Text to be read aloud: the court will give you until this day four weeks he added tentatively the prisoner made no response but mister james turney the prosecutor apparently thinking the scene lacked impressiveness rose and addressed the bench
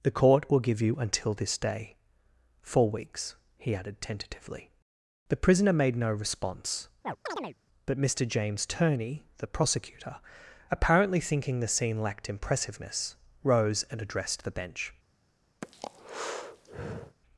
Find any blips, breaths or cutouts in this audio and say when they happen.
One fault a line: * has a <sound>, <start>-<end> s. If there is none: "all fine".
* has a chirp, 7.0-7.6 s
* has a breath, 15.6-17.2 s